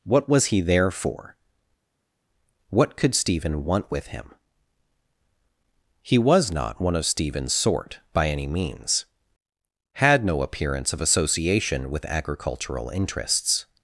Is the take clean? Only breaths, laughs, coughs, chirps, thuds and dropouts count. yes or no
yes